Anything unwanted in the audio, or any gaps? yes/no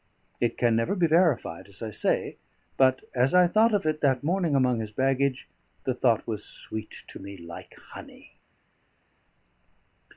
no